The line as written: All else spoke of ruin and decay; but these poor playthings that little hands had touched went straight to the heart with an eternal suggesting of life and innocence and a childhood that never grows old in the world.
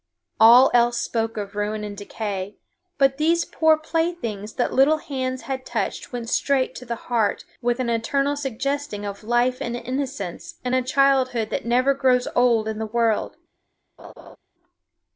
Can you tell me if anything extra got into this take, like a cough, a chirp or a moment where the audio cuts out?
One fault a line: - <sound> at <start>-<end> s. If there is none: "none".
- laugh at 14.0-14.4 s